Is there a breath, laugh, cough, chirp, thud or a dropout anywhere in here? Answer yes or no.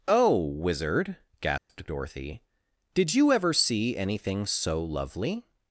yes